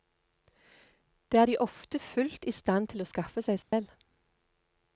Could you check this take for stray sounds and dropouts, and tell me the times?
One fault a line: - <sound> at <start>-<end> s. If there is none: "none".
- dropout at 3.6-3.7 s